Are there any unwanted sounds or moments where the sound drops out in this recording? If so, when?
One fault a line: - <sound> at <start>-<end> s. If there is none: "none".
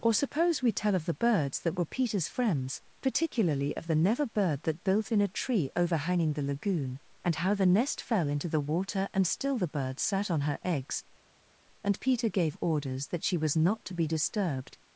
none